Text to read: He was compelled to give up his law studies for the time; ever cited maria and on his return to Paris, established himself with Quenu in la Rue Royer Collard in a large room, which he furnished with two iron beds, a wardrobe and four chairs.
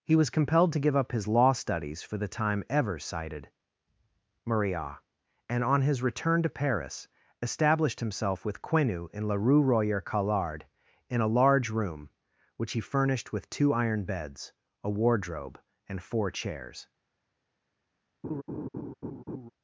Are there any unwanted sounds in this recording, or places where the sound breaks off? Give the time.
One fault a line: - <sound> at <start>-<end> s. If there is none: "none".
- laugh at 18.2-19.5 s